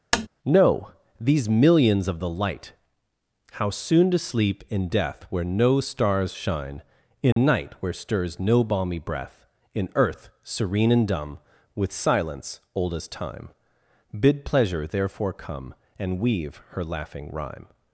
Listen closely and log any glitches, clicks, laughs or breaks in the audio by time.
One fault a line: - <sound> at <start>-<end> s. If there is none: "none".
- tap at 0.1-0.3 s
- dropout at 7.3-7.4 s